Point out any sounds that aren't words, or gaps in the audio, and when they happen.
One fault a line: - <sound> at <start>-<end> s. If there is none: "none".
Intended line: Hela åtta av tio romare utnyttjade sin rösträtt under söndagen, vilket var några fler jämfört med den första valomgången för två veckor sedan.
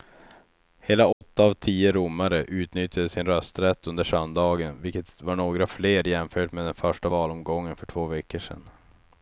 - dropout at 1.1-1.2 s